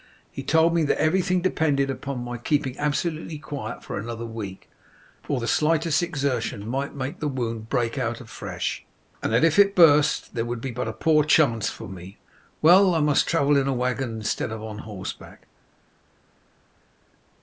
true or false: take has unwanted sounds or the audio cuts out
false